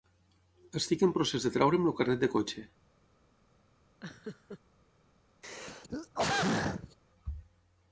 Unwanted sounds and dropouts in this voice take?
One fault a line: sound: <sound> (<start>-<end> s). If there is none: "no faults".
sound: laugh (4.0-4.6 s)
sound: throat clearing (5.4-7.0 s)